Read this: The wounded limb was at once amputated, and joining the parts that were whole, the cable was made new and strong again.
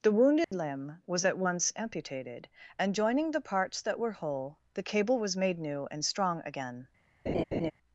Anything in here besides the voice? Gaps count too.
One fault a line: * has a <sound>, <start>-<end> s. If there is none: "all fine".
* has a dropout, 0.4-0.5 s
* has a laugh, 7.3-7.7 s